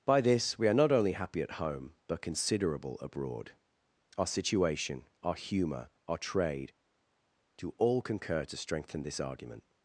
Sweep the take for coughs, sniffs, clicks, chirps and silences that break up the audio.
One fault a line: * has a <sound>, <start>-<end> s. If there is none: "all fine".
all fine